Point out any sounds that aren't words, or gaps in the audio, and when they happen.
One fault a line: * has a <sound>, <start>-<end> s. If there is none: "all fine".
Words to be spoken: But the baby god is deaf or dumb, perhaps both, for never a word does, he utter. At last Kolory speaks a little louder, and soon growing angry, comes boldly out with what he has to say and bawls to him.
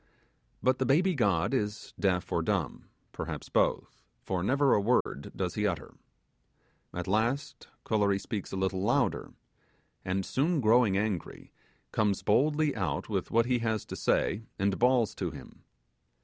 * has a dropout, 5.0-5.1 s